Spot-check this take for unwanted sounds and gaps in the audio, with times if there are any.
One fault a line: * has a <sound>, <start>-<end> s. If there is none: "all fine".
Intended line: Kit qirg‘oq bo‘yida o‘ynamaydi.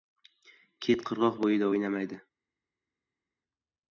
all fine